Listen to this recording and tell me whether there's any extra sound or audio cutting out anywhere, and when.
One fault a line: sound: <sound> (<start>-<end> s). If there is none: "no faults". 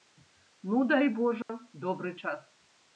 sound: dropout (1.4-1.5 s)